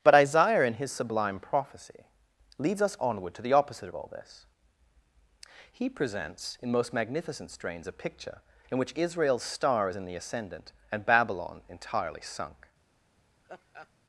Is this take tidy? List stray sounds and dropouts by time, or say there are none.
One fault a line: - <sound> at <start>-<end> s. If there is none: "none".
- laugh at 13.4-13.9 s